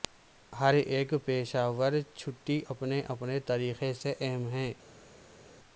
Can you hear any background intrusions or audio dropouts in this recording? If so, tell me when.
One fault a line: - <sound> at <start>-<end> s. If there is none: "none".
none